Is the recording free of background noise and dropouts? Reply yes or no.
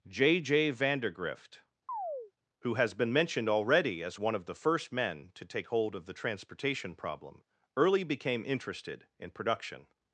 no